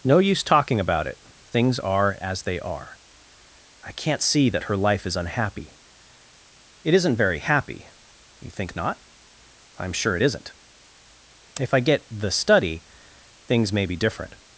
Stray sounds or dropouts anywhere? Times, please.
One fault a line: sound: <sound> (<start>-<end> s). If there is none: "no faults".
no faults